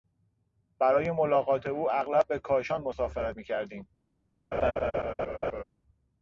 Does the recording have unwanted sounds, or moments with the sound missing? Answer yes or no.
yes